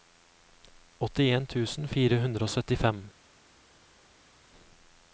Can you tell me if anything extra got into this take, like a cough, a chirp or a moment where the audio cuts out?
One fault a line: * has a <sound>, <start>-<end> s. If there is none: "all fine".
all fine